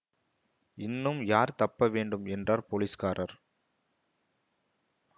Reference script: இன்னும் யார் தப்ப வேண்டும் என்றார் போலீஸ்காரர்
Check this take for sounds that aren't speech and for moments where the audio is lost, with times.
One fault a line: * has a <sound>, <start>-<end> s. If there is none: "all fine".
all fine